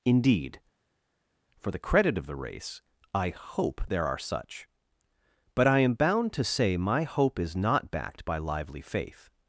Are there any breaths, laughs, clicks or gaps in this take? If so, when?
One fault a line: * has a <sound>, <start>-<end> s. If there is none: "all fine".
all fine